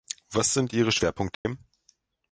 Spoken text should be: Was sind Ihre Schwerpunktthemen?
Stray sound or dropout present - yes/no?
yes